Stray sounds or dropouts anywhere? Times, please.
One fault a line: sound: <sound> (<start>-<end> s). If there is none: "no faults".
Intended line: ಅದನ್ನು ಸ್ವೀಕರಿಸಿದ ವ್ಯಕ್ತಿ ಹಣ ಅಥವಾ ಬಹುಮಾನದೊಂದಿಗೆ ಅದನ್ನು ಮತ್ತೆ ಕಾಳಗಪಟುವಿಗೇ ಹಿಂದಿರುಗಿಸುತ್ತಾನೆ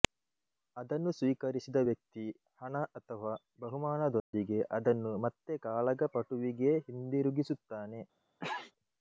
sound: dropout (4.2-4.3 s)
sound: sneeze (8.4-8.7 s)